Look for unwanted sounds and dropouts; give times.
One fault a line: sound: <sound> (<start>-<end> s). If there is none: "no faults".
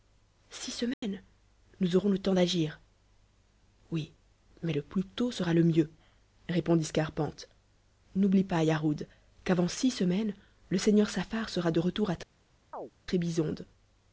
sound: dropout (0.9-1.0 s)
sound: chirp (12.7-12.9 s)